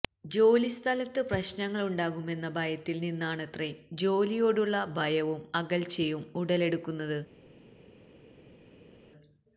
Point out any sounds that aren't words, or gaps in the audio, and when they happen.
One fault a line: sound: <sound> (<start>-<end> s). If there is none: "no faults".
no faults